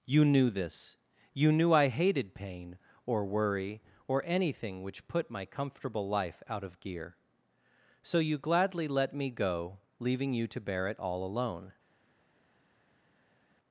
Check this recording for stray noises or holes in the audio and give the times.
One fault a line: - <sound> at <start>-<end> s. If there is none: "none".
none